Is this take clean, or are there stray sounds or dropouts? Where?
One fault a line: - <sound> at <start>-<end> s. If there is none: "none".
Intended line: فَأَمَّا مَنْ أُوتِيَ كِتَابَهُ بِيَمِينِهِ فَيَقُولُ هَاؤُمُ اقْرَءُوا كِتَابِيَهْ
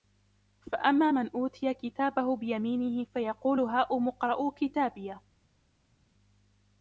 none